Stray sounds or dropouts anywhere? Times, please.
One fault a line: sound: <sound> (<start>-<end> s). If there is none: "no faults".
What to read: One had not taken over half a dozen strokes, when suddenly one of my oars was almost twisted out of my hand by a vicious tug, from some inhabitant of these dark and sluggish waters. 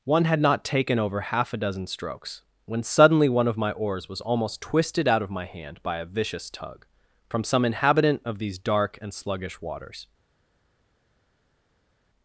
no faults